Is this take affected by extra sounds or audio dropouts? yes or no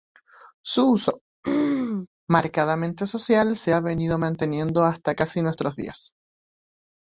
yes